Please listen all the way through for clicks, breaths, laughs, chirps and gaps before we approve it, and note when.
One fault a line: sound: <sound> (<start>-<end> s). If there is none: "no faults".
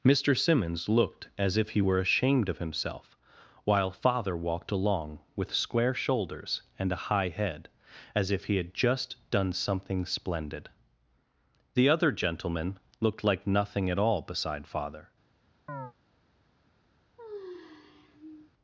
sound: chirp (15.7-15.9 s)
sound: sigh (17.2-18.5 s)